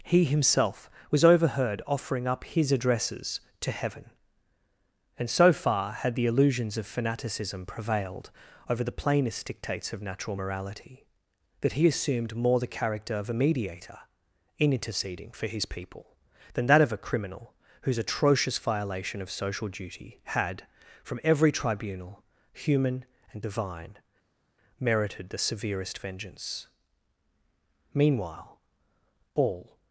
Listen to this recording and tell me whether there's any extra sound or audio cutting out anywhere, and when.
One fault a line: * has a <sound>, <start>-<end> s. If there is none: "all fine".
all fine